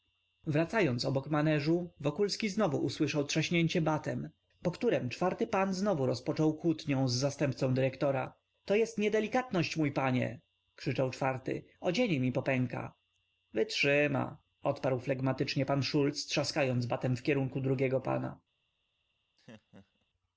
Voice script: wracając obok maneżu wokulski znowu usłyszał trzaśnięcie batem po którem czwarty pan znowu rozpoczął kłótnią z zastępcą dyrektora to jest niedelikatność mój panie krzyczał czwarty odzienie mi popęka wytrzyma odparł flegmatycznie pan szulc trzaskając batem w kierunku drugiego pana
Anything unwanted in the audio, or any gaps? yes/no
yes